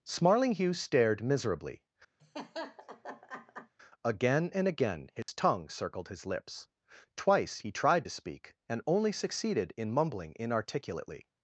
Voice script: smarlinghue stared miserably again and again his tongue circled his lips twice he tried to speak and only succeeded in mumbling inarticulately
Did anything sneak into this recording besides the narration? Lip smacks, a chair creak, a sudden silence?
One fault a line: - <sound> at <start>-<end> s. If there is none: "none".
- laugh at 2.2-3.7 s
- dropout at 5.2-5.3 s